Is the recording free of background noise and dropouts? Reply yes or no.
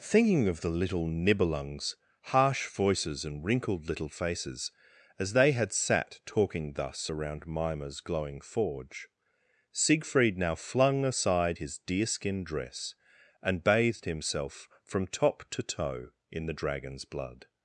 yes